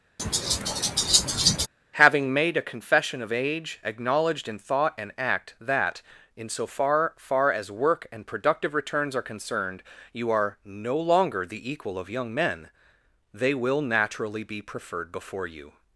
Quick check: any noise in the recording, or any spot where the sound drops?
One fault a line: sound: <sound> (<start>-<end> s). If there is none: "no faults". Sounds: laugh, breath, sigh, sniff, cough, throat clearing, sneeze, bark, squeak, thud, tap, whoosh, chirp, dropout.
sound: laugh (0.2-1.7 s)